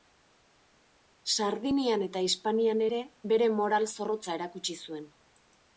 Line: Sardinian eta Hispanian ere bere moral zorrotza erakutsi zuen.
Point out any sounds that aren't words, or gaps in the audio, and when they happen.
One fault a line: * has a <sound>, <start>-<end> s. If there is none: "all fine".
all fine